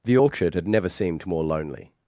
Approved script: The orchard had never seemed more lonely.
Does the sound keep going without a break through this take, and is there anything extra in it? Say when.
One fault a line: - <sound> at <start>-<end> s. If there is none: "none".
none